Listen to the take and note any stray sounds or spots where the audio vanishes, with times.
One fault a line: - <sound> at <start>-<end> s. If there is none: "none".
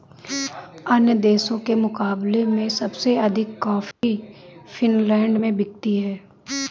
- dropout at 3.9-4.0 s